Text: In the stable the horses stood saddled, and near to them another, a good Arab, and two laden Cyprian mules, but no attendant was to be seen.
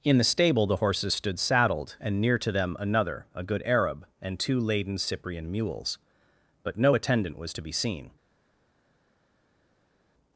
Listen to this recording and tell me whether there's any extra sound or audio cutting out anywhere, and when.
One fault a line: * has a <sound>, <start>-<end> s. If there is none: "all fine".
all fine